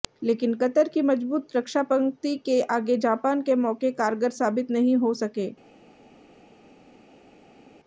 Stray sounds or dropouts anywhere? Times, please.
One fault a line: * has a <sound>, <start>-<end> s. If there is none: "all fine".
all fine